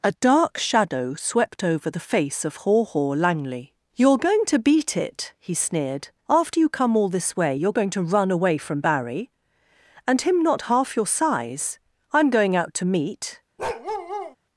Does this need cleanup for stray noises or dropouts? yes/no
yes